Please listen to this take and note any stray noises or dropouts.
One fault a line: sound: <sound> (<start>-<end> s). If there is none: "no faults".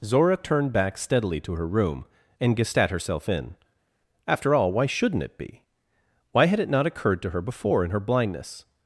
no faults